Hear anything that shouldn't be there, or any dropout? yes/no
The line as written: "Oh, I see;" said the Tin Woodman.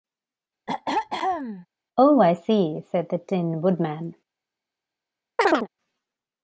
yes